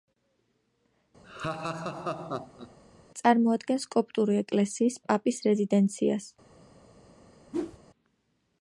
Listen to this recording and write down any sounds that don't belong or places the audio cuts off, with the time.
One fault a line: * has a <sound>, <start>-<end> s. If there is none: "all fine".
* has a laugh, 1.2-2.8 s
* has a whoosh, 7.5-7.8 s